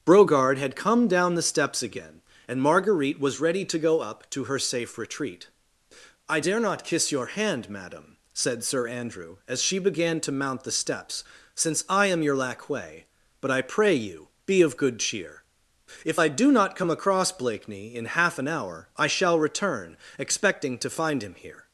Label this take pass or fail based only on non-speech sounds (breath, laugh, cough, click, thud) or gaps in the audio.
pass